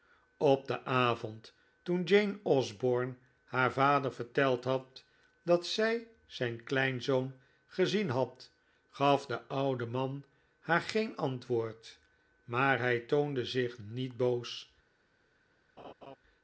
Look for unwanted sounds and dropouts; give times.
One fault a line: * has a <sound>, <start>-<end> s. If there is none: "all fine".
* has a laugh, 15.8-16.2 s